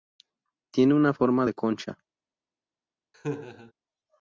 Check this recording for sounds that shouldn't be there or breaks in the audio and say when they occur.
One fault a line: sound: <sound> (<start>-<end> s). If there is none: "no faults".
sound: laugh (3.1-3.7 s)